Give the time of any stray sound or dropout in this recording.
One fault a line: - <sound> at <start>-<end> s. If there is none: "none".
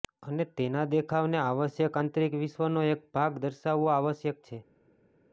none